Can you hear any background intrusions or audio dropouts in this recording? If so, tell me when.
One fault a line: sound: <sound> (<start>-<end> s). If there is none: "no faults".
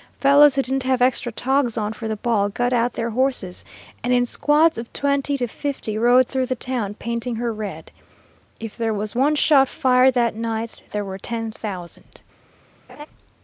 sound: laugh (12.9-13.1 s)